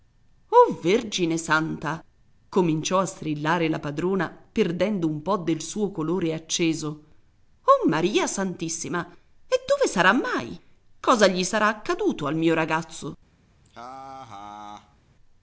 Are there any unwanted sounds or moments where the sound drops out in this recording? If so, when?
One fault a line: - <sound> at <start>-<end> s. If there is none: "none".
- laugh at 13.6-15.0 s